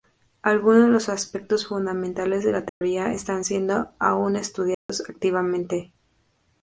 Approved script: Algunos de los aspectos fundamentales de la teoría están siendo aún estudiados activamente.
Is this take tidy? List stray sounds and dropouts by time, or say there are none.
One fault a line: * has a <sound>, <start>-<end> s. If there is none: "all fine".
* has a dropout, 2.7-2.8 s
* has a dropout, 4.7-4.9 s